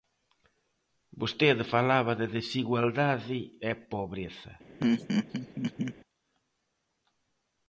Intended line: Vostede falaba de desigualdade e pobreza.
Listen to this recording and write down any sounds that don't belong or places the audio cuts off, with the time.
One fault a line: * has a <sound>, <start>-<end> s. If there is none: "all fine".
* has a laugh, 4.8-5.9 s